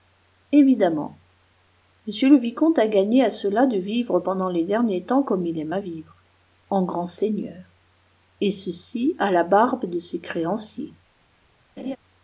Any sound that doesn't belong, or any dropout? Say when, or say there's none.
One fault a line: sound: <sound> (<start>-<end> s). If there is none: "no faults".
sound: laugh (11.8-12.0 s)